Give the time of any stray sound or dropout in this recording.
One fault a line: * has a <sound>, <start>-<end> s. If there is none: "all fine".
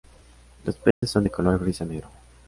* has a dropout, 0.9-1.0 s